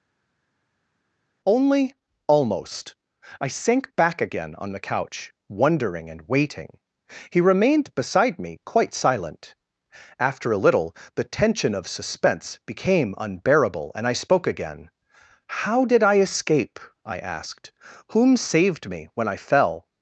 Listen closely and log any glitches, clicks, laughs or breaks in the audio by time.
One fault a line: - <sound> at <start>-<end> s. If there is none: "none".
none